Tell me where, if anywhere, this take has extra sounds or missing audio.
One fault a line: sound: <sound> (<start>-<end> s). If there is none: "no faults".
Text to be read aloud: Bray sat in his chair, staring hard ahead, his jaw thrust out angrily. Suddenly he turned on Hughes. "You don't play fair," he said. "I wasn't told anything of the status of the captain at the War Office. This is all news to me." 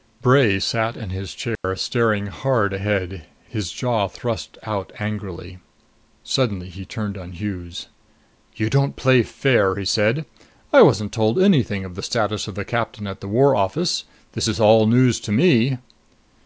sound: dropout (1.6-1.6 s)